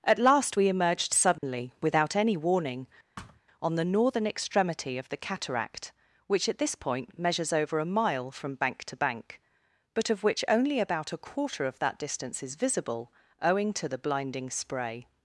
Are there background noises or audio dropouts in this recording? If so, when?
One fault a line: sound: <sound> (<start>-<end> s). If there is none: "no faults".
sound: dropout (1.4-1.4 s)
sound: thud (3.2-3.4 s)